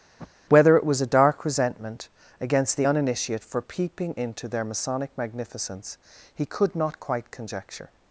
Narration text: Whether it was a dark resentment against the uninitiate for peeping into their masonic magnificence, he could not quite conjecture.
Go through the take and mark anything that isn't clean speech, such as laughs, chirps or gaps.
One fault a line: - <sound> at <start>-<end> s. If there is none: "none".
- sniff at 0.2-0.3 s